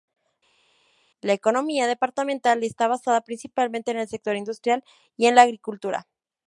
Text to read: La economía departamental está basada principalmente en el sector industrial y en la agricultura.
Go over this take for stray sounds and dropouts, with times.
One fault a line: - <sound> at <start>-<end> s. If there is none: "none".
none